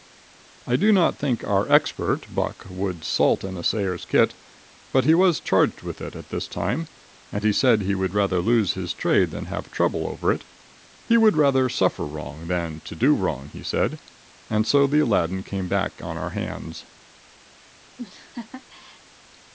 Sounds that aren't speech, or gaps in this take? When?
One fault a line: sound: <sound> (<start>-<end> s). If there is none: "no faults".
sound: laugh (18.0-19.0 s)